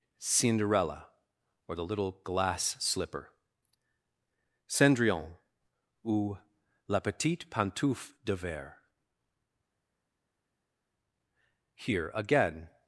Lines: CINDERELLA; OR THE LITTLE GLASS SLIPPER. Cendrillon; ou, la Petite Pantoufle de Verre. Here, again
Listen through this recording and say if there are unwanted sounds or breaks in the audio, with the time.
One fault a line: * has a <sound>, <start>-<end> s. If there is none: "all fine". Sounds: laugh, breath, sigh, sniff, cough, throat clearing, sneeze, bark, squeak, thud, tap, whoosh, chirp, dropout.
all fine